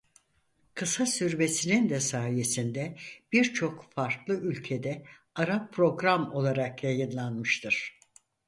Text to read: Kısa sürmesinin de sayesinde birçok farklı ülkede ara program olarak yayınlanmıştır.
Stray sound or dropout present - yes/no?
no